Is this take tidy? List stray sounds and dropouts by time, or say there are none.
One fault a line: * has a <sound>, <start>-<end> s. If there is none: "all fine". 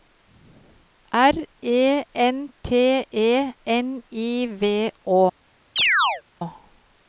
* has a chirp, 5.8-6.2 s